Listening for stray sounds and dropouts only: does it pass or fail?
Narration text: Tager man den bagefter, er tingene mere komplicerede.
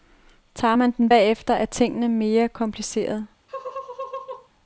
fail